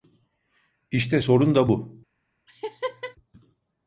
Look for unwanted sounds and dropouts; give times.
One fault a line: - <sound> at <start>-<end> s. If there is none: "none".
- laugh at 2.5-3.2 s